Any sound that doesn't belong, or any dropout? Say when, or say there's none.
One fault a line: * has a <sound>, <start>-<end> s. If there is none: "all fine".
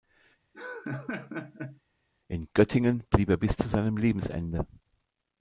* has a laugh, 0.5-1.8 s